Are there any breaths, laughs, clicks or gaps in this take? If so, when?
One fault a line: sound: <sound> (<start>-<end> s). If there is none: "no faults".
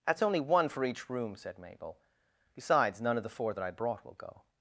no faults